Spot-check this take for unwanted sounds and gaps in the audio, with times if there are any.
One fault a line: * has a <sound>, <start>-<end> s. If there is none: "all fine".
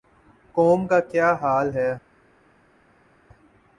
all fine